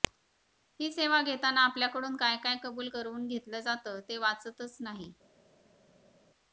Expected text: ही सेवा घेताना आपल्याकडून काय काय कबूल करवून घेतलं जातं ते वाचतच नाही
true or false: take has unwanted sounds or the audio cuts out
false